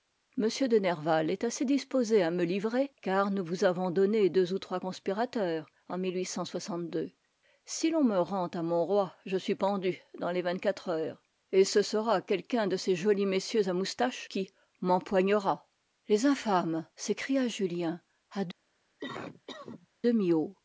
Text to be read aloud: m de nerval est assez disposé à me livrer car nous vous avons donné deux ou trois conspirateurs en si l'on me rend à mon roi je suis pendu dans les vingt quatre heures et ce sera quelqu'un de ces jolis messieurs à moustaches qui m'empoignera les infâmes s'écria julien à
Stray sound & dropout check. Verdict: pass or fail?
fail